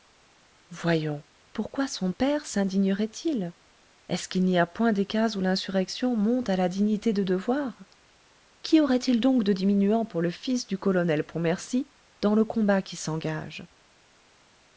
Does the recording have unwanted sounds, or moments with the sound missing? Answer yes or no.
no